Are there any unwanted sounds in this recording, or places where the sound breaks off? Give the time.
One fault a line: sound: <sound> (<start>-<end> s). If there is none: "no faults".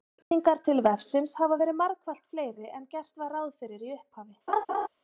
sound: dropout (0.2-0.3 s)
sound: laugh (4.5-4.9 s)